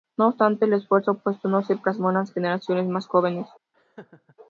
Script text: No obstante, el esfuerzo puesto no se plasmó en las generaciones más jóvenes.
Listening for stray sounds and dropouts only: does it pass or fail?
fail